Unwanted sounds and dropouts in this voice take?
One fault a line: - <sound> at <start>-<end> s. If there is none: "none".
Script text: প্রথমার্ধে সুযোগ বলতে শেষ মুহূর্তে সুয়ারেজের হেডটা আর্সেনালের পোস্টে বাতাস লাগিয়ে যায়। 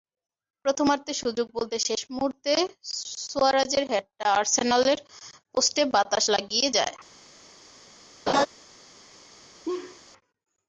- laugh at 8.3-8.5 s
- laugh at 9.6-10.0 s